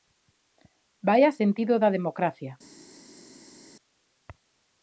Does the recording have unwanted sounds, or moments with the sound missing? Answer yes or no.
no